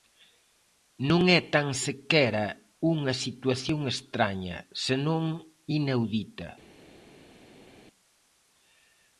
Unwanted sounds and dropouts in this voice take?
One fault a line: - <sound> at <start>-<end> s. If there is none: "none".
none